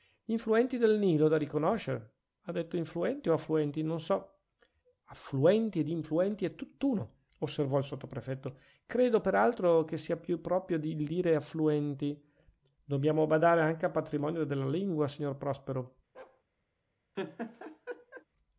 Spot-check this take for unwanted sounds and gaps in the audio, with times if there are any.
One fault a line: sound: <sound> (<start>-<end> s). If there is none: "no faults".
sound: bark (16.1-16.4 s)
sound: laugh (17.1-18.2 s)